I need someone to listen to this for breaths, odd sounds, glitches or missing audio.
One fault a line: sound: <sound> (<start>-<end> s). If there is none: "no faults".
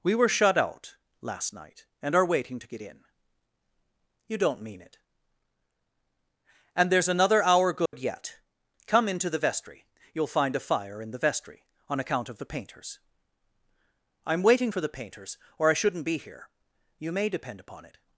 sound: dropout (7.9-7.9 s)